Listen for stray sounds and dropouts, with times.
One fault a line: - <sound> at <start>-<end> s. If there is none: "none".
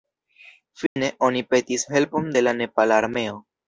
- dropout at 0.9-1.0 s